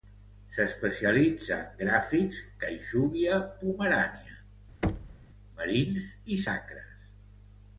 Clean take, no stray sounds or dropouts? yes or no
no